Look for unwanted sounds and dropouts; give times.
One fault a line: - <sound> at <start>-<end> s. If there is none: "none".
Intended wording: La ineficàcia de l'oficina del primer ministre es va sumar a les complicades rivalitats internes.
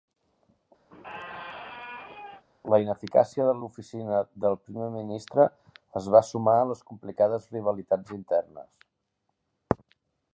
- squeak at 0.9-2.4 s